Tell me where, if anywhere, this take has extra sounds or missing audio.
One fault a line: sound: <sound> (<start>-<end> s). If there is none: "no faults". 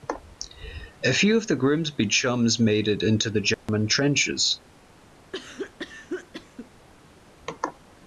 sound: dropout (3.5-3.7 s)
sound: cough (5.3-6.7 s)